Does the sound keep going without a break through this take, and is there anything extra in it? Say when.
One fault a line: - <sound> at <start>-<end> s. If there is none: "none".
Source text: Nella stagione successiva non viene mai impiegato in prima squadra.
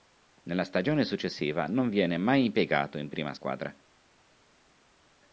none